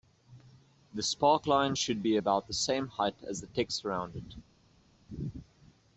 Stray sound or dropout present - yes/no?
no